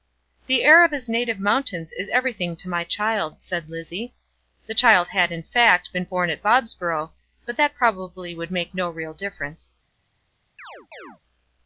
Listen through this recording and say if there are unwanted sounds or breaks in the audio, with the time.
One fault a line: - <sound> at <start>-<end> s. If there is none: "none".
- chirp at 10.6-11.2 s